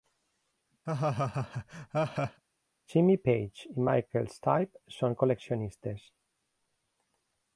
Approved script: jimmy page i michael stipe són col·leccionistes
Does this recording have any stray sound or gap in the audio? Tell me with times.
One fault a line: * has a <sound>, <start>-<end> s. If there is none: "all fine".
* has a laugh, 0.9-2.4 s